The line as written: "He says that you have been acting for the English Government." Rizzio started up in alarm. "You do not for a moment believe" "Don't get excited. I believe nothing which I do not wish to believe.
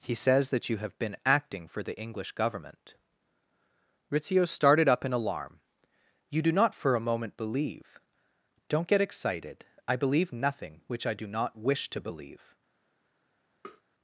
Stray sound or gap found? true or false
true